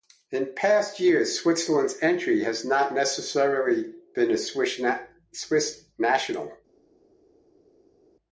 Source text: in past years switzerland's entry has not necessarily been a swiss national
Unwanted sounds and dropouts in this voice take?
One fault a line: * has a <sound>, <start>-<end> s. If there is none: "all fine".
all fine